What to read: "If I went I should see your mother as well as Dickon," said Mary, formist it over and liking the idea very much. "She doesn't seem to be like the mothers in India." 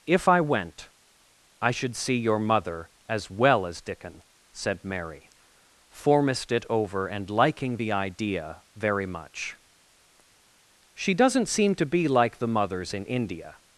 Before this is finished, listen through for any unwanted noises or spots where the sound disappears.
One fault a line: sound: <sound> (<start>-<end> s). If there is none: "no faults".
no faults